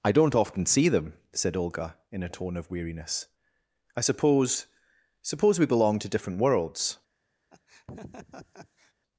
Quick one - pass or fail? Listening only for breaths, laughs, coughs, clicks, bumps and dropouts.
fail